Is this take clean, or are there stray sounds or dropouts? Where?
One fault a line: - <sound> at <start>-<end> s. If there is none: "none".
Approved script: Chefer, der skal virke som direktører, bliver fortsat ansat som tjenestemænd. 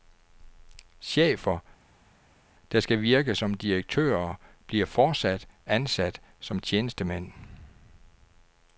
none